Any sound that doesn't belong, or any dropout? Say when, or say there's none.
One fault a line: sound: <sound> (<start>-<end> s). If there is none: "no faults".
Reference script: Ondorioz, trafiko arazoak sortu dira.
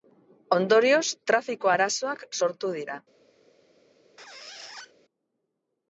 sound: squeak (4.2-4.9 s)